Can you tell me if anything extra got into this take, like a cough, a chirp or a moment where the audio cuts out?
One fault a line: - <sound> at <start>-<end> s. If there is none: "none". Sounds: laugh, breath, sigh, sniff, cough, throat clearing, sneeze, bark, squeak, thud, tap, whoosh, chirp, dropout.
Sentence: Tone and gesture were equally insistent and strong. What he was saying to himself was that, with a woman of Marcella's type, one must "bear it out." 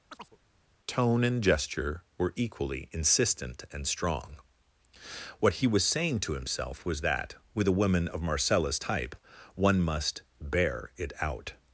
- chirp at 0.1-0.4 s